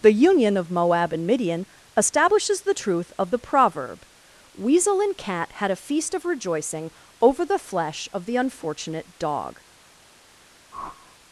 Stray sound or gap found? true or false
true